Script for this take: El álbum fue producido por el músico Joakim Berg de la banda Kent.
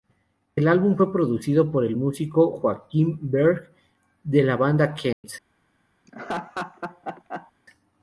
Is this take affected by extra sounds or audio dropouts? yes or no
yes